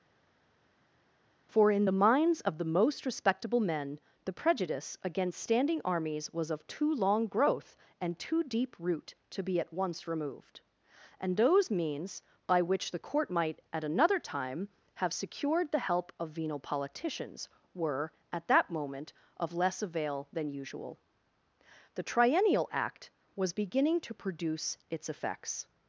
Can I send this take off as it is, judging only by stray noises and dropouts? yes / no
yes